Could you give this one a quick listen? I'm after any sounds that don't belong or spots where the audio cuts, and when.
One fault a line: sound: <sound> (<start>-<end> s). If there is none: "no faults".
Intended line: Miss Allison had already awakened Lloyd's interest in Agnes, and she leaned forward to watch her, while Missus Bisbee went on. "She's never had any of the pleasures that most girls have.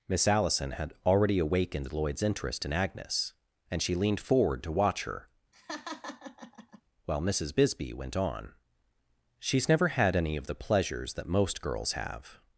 sound: laugh (5.5-6.8 s)